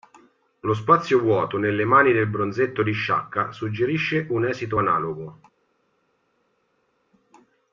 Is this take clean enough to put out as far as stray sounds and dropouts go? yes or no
yes